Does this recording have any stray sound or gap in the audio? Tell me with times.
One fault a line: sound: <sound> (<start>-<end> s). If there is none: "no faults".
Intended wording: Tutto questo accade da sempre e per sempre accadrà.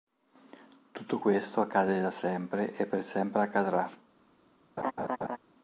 sound: laugh (4.8-5.4 s)